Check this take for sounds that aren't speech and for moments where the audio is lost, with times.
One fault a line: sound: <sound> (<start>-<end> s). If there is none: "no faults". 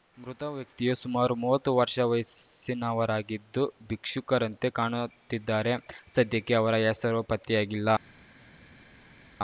no faults